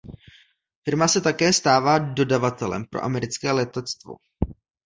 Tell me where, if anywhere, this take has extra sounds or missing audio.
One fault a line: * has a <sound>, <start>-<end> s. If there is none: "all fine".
all fine